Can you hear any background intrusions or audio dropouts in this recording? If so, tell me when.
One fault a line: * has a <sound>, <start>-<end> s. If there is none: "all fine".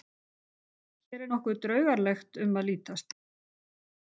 all fine